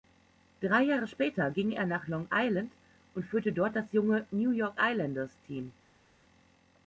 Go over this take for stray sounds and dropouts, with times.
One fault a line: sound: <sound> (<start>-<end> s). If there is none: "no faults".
no faults